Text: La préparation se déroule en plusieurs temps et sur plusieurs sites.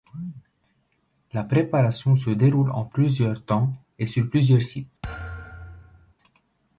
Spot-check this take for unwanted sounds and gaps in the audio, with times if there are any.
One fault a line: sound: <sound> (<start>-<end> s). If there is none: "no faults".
sound: thud (5.0-6.1 s)